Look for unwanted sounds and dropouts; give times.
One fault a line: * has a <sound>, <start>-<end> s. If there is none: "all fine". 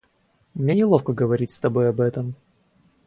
all fine